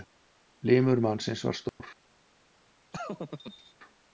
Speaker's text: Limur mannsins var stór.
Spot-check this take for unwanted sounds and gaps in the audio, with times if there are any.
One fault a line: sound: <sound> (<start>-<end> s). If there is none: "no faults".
sound: dropout (1.7-1.8 s)
sound: laugh (2.9-3.7 s)